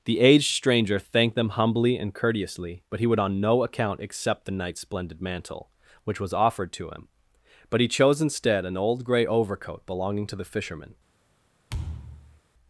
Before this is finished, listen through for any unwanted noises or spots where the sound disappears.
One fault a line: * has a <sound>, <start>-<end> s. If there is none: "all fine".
* has a thud, 11.7-12.4 s